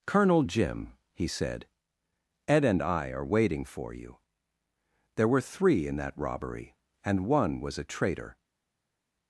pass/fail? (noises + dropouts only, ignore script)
pass